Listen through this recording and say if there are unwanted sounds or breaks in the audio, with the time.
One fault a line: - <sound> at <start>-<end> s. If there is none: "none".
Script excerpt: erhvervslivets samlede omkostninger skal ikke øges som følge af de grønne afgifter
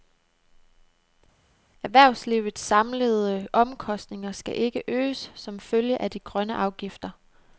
none